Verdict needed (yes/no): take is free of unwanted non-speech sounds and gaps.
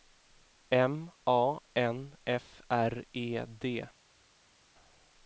yes